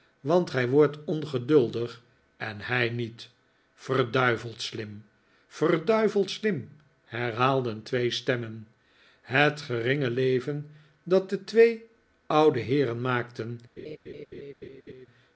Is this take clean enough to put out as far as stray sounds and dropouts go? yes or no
no